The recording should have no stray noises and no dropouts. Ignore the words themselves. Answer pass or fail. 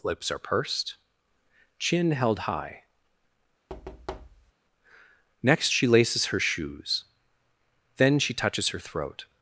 fail